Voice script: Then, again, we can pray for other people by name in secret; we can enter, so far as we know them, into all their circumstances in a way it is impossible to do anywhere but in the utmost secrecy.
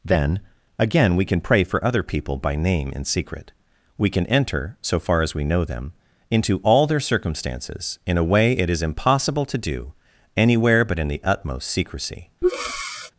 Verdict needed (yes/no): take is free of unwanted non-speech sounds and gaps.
no